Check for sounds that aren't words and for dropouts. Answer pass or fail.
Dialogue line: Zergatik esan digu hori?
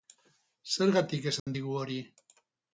fail